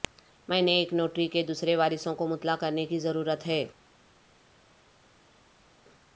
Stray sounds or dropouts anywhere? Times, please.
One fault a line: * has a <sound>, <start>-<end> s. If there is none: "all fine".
all fine